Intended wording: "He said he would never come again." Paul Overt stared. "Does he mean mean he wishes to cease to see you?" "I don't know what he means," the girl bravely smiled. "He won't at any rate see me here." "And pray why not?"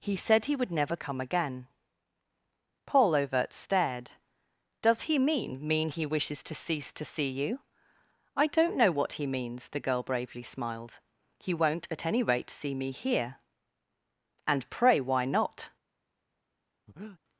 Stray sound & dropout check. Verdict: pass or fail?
fail